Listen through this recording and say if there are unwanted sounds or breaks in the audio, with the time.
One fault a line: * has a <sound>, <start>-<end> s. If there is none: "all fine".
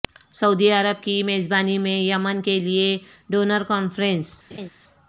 * has a laugh, 4.5-4.7 s